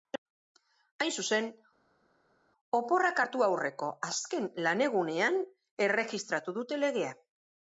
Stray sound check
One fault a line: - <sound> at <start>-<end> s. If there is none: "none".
none